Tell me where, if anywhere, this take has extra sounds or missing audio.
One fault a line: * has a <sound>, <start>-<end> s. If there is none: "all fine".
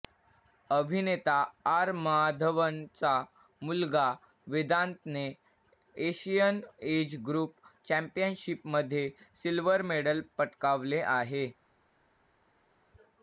all fine